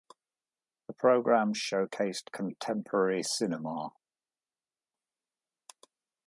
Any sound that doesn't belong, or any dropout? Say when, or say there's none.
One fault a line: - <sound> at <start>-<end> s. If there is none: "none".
none